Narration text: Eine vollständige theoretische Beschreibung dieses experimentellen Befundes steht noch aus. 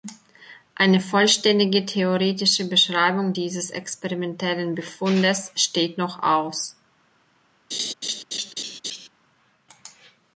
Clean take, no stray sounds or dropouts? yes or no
no